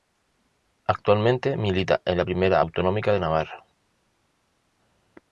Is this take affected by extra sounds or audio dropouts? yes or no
no